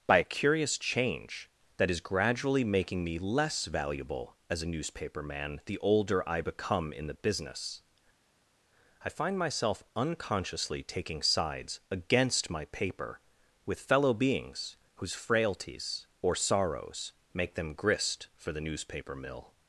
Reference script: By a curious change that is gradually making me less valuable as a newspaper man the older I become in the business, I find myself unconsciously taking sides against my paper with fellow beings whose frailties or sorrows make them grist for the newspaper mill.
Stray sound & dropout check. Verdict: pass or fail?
pass